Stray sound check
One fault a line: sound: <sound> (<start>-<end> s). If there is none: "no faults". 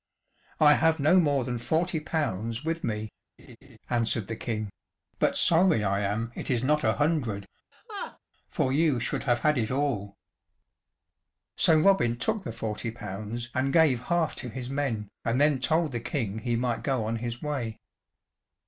sound: laugh (3.4-3.8 s)
sound: laugh (7.7-8.2 s)